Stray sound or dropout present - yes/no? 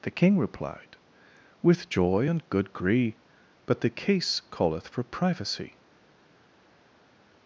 no